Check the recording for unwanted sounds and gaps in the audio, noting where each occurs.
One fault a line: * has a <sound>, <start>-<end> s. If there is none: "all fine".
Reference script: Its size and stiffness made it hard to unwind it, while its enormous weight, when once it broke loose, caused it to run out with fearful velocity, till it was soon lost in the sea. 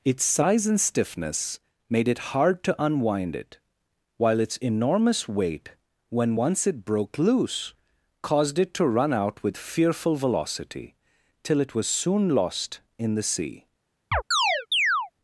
* has a chirp, 14.1-15.1 s